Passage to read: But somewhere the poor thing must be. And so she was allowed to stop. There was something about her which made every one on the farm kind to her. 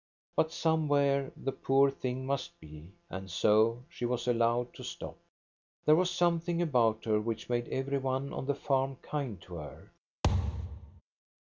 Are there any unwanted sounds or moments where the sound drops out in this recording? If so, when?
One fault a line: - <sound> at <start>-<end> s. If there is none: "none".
- thud at 10.2-11.0 s